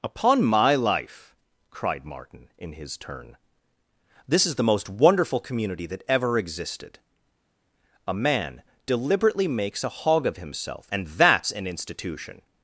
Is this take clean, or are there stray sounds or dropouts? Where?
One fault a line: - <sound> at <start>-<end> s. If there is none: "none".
none